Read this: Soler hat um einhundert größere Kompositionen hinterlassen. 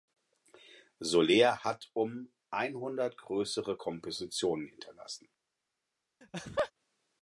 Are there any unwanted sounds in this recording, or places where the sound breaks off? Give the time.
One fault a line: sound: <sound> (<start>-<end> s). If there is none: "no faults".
sound: laugh (6.2-6.7 s)